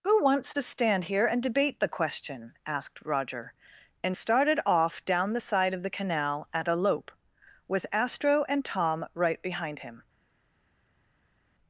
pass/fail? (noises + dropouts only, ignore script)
pass